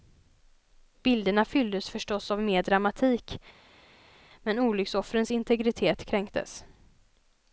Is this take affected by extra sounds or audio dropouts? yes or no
no